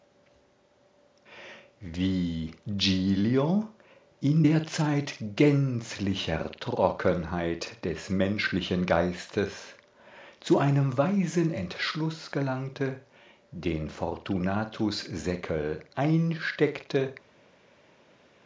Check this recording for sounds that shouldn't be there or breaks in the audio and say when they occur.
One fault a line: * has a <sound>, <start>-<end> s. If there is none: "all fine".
all fine